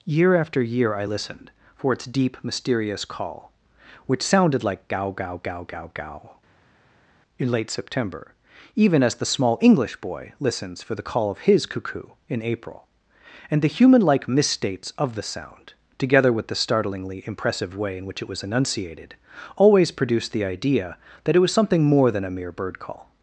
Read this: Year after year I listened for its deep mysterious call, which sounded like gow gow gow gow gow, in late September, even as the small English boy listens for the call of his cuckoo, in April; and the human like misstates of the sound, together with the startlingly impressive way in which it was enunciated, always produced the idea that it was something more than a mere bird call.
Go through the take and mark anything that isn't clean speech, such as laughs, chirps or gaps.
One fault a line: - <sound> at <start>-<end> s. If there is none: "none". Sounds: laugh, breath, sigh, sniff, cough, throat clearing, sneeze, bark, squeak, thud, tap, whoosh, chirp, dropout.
none